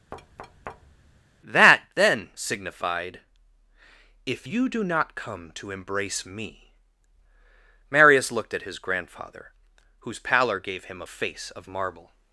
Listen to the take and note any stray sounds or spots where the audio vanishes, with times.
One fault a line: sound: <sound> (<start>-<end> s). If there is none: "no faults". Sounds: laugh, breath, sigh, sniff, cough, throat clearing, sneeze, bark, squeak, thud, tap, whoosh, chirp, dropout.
sound: thud (0.1-1.2 s)